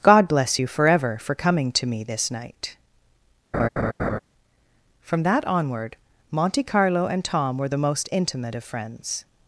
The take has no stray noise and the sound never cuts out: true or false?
false